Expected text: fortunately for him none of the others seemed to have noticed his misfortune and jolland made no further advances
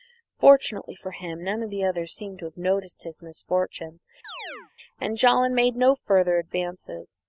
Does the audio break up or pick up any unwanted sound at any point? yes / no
yes